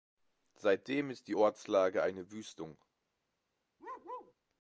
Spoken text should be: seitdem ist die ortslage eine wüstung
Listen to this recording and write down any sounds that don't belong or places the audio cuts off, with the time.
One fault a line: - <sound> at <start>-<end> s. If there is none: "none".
- bark at 3.8-4.3 s